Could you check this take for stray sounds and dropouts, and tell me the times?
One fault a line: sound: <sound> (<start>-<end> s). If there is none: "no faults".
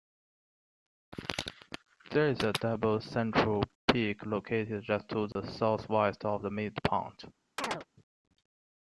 sound: dropout (5.3-5.4 s)
sound: chirp (7.6-7.9 s)